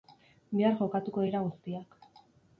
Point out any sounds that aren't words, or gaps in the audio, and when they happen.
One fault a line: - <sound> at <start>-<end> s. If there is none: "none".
none